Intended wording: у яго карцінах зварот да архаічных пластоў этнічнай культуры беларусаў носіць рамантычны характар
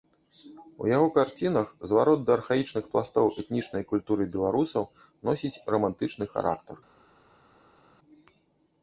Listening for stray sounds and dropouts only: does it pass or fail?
pass